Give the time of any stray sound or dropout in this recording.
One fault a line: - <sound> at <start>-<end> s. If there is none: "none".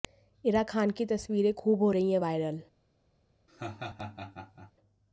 - laugh at 3.5-4.7 s